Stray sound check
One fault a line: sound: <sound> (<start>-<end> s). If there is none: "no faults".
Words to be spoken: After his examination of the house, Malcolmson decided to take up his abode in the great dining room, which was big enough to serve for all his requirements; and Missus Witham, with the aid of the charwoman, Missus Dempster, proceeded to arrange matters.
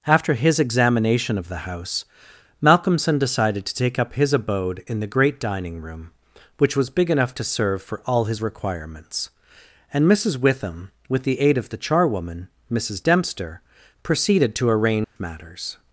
sound: dropout (15.0-15.2 s)